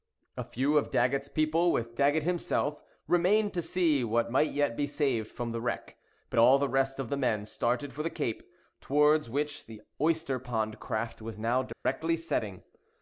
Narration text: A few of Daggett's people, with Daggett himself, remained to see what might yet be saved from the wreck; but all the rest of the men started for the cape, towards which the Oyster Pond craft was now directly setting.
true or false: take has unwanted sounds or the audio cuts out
true